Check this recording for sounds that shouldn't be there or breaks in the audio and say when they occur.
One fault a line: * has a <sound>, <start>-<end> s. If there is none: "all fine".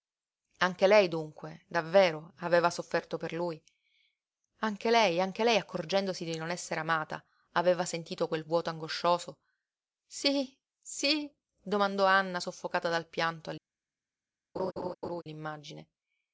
* has a laugh, 14.5-15.2 s